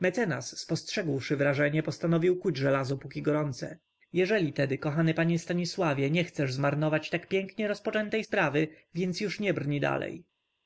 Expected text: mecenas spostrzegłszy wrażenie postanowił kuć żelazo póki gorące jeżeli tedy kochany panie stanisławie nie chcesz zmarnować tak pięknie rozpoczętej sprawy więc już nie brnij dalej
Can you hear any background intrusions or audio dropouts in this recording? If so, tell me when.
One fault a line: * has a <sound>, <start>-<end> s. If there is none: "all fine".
all fine